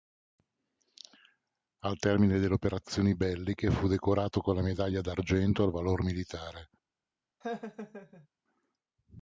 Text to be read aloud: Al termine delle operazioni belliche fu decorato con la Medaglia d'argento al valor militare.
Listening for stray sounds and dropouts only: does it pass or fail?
fail